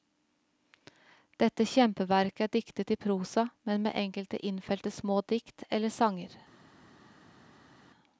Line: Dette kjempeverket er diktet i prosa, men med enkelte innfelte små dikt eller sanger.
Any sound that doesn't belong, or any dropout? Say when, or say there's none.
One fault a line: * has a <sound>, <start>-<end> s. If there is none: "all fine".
all fine